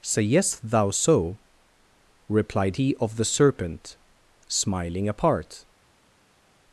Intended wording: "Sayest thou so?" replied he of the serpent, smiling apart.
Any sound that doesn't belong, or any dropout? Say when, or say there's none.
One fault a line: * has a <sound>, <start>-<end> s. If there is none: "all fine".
all fine